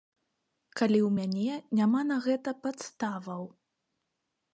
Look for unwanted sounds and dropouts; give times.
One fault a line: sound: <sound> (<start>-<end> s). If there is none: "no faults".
no faults